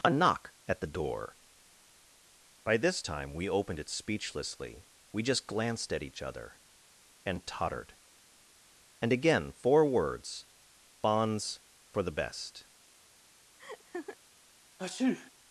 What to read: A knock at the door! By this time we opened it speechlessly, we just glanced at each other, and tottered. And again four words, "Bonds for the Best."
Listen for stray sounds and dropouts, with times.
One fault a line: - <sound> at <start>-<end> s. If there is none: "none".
- laugh at 13.6-14.2 s
- sneeze at 14.8-15.3 s